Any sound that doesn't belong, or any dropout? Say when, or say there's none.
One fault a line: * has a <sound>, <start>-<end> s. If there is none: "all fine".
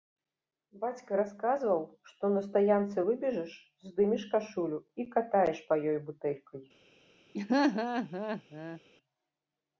* has a laugh, 7.3-8.8 s